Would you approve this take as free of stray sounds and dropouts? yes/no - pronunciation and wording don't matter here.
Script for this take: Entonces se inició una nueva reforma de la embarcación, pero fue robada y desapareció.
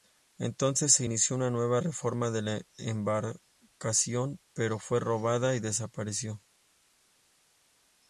yes